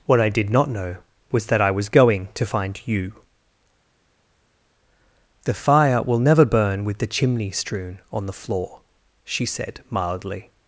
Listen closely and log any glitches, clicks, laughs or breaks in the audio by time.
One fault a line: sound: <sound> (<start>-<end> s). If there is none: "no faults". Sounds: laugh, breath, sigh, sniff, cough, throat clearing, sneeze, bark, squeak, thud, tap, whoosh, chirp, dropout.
no faults